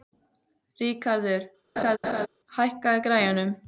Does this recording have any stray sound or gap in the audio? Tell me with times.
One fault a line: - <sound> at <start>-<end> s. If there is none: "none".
- laugh at 1.8-2.3 s